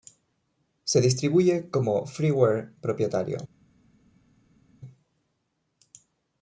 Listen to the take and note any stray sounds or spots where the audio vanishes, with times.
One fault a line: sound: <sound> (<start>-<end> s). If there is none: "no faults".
no faults